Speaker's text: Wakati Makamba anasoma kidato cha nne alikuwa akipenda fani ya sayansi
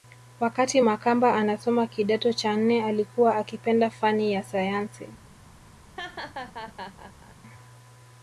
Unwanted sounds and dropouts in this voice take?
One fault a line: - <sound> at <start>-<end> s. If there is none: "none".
- laugh at 6.0-7.4 s